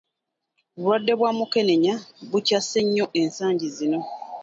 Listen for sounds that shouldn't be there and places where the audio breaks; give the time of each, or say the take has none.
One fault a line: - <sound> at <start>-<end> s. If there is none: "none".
none